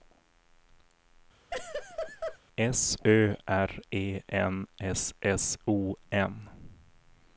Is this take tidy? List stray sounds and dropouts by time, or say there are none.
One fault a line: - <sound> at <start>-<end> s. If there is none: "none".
- laugh at 1.5-2.4 s